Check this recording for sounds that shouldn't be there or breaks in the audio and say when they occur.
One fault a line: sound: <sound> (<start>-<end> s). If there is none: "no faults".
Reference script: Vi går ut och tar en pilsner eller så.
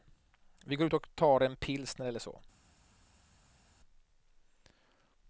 no faults